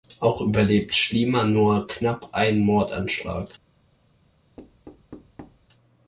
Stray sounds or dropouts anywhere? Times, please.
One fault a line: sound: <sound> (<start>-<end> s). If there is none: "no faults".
sound: thud (4.6-5.7 s)